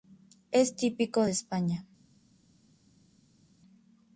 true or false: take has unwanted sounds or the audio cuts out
false